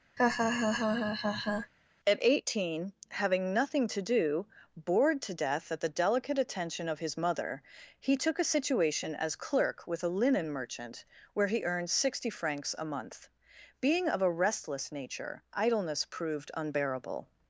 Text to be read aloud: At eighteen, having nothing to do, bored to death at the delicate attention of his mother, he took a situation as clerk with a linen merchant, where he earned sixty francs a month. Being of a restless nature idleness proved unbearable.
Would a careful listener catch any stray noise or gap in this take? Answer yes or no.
yes